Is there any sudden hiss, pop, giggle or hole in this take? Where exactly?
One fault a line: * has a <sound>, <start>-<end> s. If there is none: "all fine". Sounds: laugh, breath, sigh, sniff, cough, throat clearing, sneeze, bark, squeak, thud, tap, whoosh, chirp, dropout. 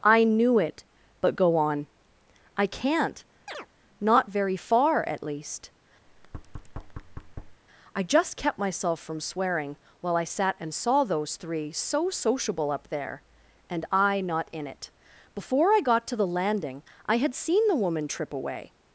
* has a chirp, 3.5-3.7 s
* has a thud, 6.1-7.6 s